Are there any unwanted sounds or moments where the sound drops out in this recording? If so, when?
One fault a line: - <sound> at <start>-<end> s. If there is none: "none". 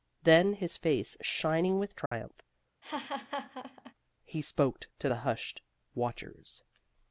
- dropout at 2.1-2.1 s
- laugh at 2.8-3.9 s